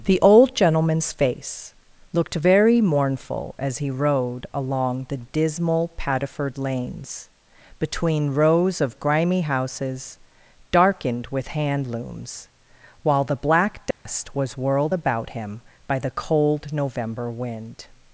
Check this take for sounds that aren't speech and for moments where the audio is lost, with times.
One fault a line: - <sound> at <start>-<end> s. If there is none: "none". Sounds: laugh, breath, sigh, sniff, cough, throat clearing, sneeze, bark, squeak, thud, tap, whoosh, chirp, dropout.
- dropout at 13.9-14.1 s